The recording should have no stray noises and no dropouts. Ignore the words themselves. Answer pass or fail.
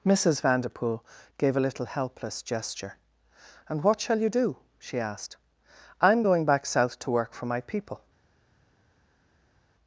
pass